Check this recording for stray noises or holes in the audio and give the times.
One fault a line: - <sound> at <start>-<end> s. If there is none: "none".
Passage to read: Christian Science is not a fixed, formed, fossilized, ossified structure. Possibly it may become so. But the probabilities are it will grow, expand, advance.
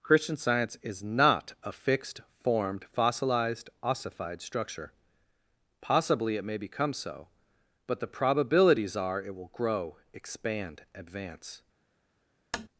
- tap at 12.5-12.7 s